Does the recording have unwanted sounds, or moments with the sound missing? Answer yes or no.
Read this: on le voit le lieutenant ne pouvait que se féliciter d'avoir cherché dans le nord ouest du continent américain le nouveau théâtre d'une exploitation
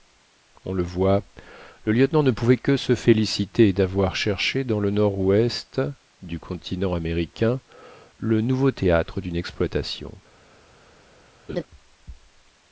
yes